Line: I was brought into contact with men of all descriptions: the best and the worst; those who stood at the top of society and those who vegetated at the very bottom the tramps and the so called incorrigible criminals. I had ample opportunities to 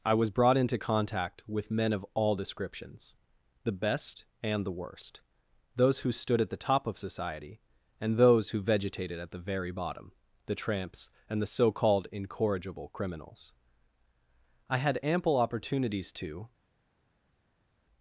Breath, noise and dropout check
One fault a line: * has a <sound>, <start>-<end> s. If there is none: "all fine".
all fine